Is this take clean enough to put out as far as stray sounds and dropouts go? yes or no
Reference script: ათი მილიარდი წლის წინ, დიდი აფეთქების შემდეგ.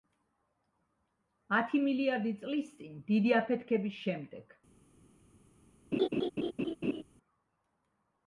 no